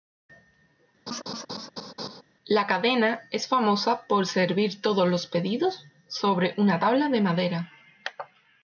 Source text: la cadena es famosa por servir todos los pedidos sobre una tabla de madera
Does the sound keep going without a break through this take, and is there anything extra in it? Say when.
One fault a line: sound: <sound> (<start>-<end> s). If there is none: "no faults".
sound: laugh (1.1-2.2 s)